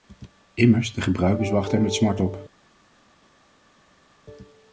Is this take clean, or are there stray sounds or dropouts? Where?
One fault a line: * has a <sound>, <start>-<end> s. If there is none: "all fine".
all fine